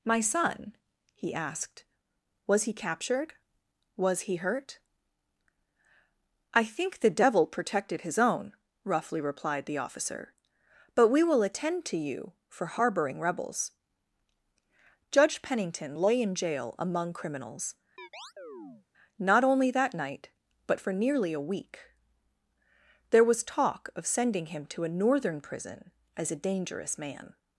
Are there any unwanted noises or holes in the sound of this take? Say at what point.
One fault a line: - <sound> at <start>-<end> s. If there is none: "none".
- chirp at 18.0-18.9 s